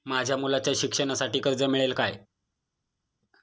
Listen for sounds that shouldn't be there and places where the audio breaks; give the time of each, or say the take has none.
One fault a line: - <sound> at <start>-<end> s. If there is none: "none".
none